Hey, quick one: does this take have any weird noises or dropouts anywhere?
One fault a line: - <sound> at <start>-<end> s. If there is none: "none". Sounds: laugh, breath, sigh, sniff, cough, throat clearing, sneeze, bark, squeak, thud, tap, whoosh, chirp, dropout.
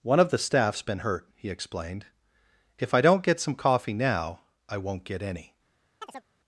- chirp at 6.0-6.2 s